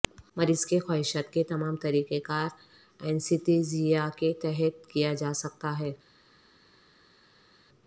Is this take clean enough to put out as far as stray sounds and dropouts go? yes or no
yes